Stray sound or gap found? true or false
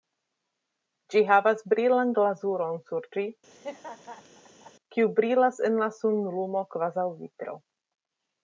true